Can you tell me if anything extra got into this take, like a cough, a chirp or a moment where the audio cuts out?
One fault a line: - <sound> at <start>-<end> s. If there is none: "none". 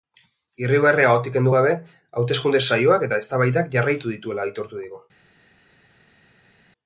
none